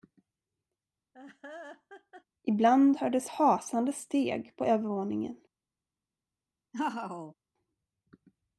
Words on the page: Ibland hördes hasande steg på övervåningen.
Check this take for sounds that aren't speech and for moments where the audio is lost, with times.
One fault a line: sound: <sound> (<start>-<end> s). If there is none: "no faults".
sound: laugh (1.1-2.2 s)
sound: laugh (6.7-7.3 s)